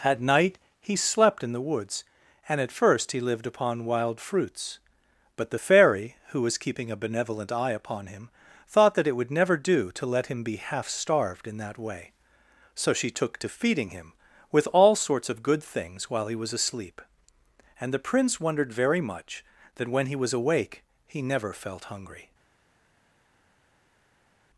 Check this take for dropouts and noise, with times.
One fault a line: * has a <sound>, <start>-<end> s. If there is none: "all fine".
all fine